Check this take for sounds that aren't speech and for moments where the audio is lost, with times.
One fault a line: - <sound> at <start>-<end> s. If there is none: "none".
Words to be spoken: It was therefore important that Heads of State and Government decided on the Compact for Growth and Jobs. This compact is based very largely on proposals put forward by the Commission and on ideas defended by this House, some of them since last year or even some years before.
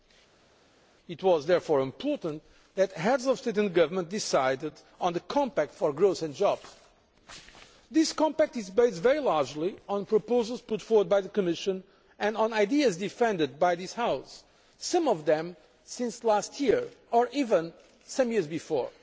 none